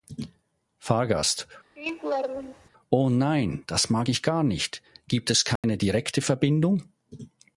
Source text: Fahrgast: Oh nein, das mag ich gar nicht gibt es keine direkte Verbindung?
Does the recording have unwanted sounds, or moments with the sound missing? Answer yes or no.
yes